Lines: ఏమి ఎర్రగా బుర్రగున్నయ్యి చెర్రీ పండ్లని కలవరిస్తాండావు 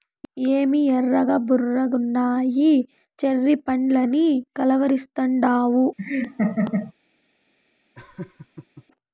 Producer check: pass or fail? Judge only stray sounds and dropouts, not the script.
fail